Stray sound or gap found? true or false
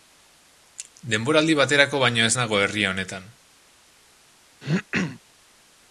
true